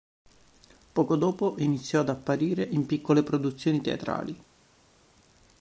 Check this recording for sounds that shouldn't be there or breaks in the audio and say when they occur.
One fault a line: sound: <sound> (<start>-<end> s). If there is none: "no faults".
no faults